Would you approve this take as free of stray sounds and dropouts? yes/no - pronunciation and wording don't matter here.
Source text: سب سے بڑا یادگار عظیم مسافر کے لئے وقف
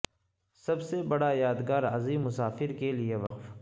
no